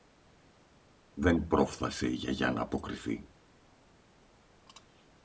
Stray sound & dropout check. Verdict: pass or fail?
pass